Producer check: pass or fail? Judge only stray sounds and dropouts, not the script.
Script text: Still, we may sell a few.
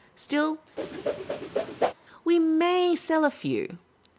fail